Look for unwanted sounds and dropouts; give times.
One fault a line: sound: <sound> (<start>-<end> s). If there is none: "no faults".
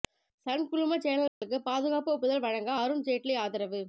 sound: dropout (1.3-1.4 s)